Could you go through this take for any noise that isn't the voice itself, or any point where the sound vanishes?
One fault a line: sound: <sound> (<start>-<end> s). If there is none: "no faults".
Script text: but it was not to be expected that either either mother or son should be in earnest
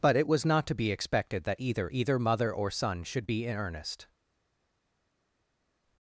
no faults